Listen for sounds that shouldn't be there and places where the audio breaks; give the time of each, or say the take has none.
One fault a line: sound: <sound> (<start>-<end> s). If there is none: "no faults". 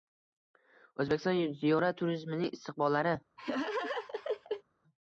sound: laugh (3.4-4.6 s)